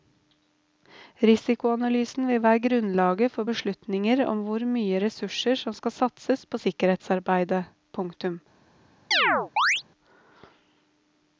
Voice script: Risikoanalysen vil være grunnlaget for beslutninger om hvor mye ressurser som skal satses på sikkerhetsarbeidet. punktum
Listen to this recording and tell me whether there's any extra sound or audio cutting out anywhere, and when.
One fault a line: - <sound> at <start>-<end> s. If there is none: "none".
- chirp at 9.1-9.8 s